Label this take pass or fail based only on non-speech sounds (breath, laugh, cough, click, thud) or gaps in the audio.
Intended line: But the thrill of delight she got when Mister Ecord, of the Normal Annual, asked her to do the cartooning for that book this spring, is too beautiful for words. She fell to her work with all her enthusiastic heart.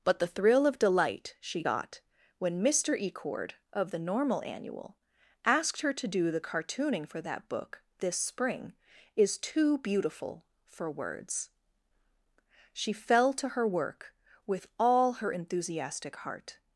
pass